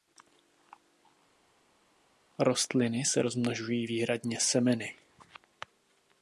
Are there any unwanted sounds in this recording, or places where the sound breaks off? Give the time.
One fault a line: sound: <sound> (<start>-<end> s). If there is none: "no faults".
no faults